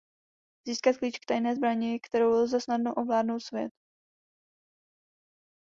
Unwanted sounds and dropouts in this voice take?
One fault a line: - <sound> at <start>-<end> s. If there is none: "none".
none